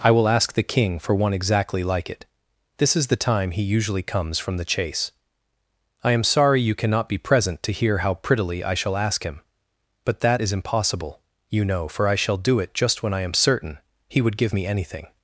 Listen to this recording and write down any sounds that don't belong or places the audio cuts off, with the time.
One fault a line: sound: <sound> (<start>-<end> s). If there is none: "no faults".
no faults